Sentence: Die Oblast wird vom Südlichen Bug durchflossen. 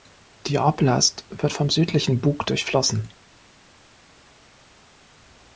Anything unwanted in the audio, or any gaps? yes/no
no